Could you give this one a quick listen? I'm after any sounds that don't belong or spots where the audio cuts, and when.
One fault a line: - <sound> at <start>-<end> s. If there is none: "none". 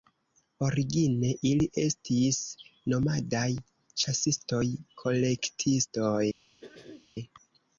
- throat clearing at 6.6-7.1 s